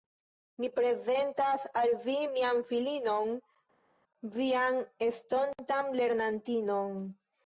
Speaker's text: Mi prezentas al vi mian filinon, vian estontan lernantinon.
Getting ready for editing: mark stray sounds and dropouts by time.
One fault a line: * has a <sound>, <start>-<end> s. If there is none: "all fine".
all fine